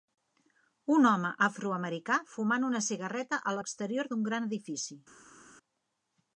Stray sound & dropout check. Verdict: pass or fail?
pass